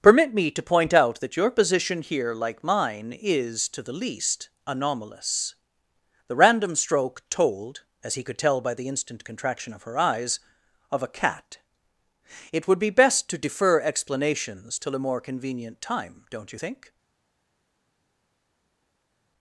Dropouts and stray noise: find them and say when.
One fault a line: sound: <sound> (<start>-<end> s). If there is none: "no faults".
no faults